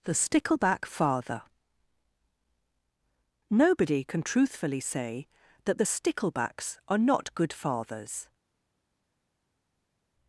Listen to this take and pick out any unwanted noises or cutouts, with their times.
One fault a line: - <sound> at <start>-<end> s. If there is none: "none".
none